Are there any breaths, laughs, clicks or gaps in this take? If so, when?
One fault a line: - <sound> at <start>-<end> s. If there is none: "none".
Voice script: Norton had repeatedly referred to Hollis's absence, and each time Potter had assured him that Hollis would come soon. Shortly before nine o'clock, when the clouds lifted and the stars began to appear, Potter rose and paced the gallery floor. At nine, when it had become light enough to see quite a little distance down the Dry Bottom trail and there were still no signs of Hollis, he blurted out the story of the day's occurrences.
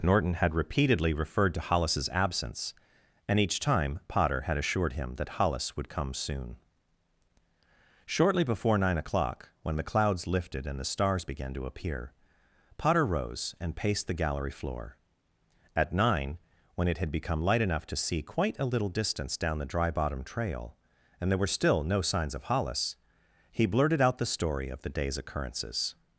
none